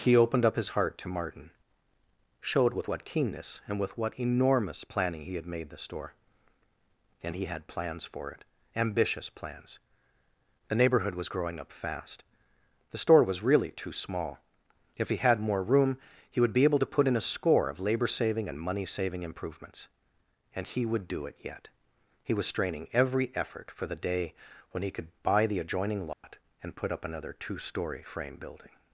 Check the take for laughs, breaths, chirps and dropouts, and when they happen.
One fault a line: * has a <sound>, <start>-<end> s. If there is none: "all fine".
* has a dropout, 26.1-26.2 s